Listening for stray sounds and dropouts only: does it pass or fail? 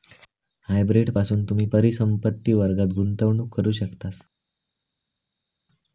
pass